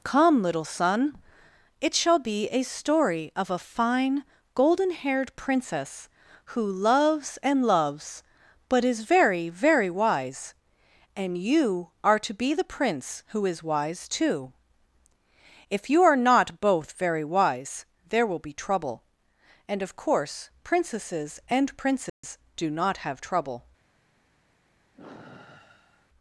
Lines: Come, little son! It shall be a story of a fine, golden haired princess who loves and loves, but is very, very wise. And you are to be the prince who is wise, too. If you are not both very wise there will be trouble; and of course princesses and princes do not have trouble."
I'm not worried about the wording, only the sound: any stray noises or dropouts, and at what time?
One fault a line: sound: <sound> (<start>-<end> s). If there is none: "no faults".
sound: dropout (22.1-22.2 s)
sound: sigh (24.9-26.1 s)